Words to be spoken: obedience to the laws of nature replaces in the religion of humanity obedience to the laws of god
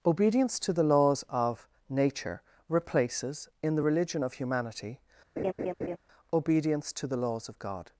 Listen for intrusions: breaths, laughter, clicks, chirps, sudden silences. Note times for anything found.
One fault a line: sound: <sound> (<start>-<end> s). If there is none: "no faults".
sound: laugh (5.4-6.0 s)